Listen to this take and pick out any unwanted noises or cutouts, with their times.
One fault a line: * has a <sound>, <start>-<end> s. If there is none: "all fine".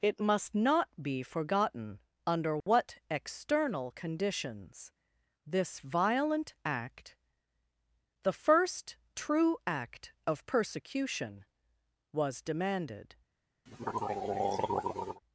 * has a dropout, 2.6-2.7 s
* has a throat clearing, 13.7-15.2 s